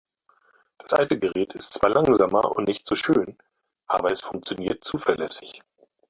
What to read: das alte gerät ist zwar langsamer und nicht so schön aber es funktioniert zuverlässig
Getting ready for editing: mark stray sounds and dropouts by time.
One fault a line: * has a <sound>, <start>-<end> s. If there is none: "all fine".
all fine